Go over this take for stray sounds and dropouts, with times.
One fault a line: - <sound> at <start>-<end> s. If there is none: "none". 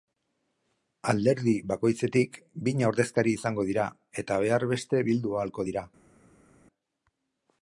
none